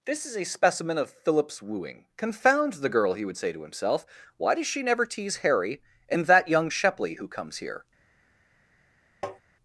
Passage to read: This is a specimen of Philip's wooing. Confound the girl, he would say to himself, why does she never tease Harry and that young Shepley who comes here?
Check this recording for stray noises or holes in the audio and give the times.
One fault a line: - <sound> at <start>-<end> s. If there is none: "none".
- tap at 9.2-9.4 s